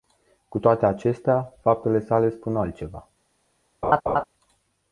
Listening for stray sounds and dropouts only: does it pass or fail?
fail